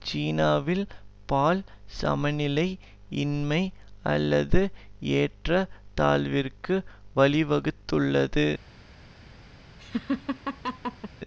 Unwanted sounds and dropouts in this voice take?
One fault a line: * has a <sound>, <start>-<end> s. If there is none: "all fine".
* has a laugh, 9.8-11.1 s